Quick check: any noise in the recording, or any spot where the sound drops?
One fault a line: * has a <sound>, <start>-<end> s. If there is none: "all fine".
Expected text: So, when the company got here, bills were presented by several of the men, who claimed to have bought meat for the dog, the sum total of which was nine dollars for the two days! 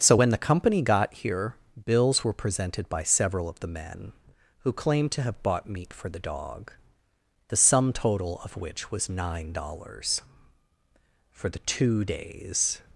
all fine